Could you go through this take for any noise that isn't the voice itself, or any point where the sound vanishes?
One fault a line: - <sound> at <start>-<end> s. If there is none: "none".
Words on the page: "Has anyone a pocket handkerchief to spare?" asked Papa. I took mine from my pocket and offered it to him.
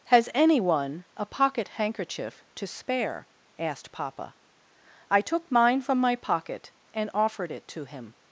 none